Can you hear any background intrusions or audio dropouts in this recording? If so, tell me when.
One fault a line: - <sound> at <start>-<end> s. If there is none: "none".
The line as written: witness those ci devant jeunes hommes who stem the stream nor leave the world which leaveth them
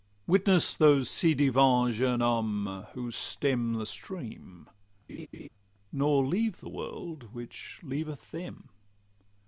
- laugh at 5.1-5.5 s